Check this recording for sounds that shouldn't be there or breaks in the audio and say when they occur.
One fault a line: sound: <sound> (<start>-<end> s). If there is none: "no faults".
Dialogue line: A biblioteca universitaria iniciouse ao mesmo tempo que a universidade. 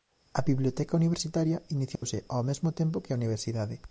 sound: dropout (2.0-2.0 s)